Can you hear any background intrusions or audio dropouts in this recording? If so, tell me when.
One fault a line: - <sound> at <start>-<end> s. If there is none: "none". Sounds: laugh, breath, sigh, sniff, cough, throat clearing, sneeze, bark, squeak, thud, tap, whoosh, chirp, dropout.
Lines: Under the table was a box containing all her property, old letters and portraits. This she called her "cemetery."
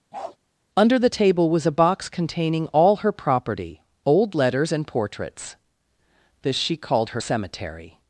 - bark at 0.1-0.4 s